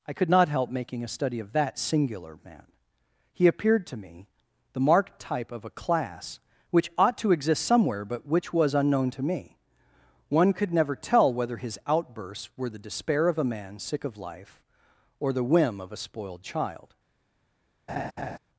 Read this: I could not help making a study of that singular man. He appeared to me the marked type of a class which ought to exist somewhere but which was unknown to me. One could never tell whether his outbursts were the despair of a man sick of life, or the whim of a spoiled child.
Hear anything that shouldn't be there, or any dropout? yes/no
yes